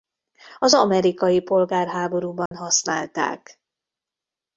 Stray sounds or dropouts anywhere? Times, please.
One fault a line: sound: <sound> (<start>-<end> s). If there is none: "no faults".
sound: dropout (2.5-2.5 s)